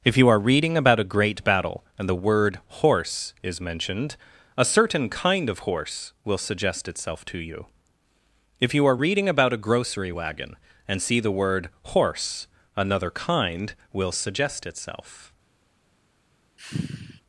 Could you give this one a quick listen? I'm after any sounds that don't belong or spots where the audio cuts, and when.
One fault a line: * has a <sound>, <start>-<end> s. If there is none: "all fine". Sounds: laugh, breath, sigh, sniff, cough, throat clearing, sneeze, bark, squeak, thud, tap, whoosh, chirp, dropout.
* has a sigh, 16.6-17.2 s